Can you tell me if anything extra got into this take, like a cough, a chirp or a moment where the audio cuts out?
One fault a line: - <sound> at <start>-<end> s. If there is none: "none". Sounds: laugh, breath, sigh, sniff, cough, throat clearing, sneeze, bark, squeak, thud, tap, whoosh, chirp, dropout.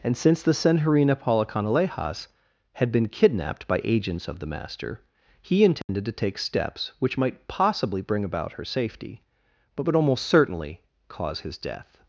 - dropout at 5.8-5.9 s